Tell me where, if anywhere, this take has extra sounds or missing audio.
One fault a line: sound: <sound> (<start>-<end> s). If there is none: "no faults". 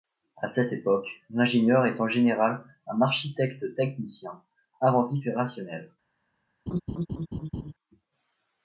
sound: laugh (6.7-7.7 s)